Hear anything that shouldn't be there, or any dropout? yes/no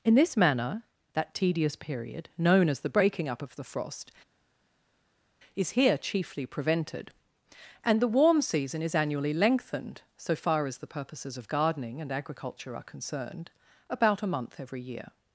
no